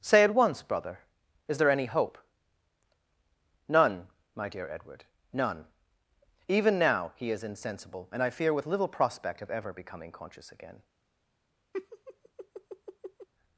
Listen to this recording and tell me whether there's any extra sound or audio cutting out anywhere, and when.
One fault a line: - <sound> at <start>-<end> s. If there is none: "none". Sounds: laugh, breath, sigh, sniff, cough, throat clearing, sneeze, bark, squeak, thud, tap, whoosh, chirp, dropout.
- laugh at 11.7-13.3 s